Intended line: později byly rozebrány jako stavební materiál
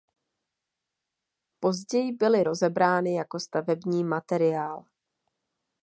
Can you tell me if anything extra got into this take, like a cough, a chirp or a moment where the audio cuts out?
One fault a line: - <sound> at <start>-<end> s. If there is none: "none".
none